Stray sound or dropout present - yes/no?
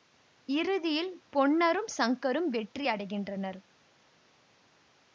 no